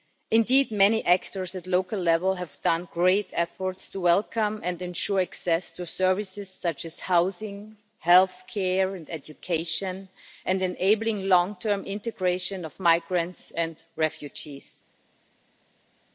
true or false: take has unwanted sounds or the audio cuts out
false